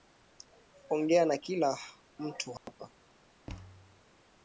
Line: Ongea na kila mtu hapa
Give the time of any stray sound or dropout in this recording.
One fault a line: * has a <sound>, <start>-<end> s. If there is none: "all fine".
* has a dropout, 2.6-2.7 s
* has a thud, 3.5-4.0 s